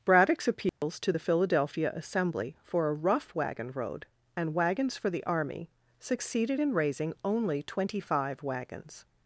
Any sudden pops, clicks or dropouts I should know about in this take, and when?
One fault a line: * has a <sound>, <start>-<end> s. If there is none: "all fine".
* has a dropout, 0.7-0.8 s